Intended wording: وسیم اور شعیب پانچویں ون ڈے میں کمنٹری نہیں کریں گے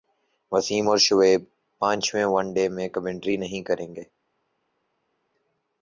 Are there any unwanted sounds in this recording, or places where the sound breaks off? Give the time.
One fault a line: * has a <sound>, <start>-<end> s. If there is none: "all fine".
all fine